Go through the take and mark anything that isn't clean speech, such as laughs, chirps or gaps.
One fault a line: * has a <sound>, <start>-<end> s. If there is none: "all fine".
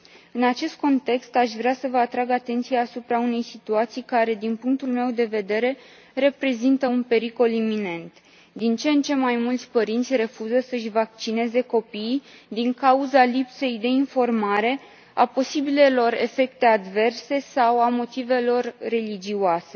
all fine